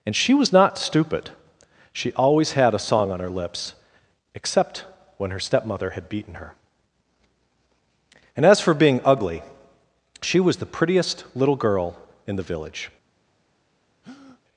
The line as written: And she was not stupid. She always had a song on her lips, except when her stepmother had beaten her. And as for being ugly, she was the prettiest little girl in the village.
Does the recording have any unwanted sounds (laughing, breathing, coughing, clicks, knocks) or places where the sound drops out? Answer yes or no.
yes